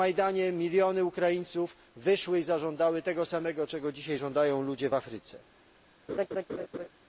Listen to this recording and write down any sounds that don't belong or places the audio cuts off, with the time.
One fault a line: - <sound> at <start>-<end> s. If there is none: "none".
- laugh at 6.1-6.9 s